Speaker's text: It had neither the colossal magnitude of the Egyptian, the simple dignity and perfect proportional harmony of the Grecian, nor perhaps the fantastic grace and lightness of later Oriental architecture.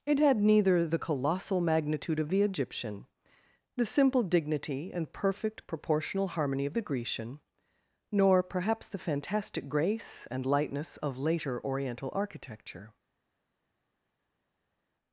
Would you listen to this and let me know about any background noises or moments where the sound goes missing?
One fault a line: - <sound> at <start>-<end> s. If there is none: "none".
none